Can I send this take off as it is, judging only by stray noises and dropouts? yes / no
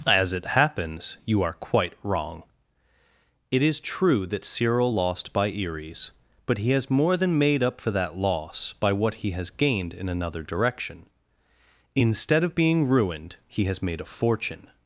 yes